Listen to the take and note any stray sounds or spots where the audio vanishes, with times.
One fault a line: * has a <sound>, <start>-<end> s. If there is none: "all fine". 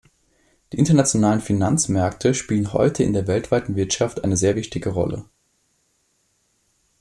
all fine